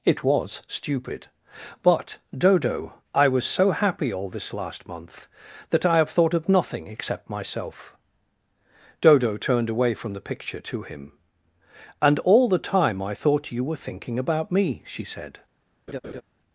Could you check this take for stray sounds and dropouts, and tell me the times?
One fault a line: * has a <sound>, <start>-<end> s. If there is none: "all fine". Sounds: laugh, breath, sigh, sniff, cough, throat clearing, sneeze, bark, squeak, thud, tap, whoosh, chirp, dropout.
* has a laugh, 15.9-16.2 s